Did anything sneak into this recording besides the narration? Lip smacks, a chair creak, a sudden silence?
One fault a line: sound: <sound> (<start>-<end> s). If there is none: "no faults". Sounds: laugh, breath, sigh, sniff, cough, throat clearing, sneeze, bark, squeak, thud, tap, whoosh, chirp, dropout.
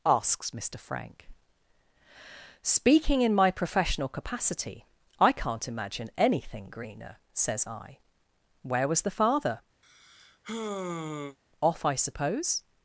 sound: sigh (9.8-11.4 s)